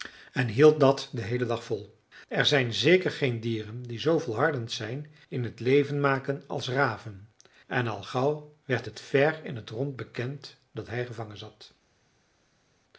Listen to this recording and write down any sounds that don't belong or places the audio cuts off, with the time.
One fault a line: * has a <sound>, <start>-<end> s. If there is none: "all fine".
all fine